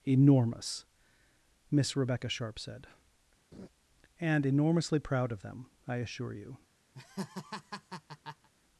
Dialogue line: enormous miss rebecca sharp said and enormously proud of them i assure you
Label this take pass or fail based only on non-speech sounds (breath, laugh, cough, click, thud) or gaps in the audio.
fail